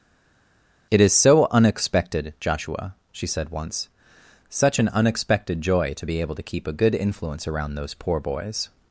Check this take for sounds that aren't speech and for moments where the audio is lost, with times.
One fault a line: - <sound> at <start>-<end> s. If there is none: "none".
none